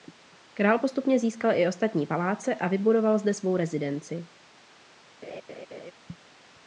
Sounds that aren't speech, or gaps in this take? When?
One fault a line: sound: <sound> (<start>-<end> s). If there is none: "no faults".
sound: laugh (5.2-5.9 s)